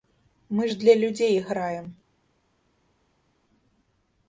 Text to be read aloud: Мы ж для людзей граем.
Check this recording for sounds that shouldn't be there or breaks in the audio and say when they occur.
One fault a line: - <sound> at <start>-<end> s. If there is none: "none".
none